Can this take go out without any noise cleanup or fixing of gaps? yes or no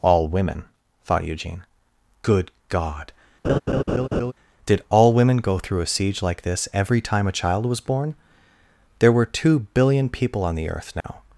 no